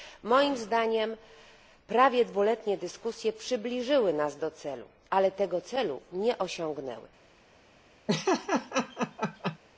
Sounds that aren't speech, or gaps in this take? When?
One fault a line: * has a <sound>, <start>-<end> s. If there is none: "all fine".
* has a laugh, 8.1-9.6 s